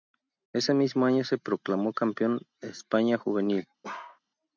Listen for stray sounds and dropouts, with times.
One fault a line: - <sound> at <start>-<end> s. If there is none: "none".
- bark at 3.8-4.2 s